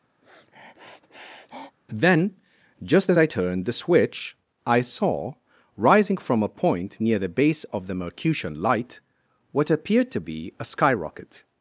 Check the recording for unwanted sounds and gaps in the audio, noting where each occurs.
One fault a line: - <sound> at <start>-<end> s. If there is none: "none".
- sniff at 0.2-1.8 s